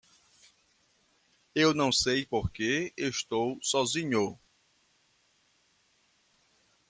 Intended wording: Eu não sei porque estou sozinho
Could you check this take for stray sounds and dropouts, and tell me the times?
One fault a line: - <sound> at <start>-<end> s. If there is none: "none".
none